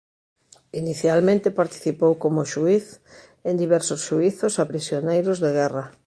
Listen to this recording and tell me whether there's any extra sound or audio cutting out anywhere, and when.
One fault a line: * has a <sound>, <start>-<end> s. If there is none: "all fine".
all fine